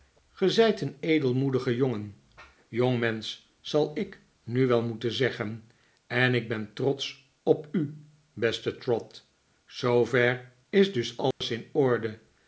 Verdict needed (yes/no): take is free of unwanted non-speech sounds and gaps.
no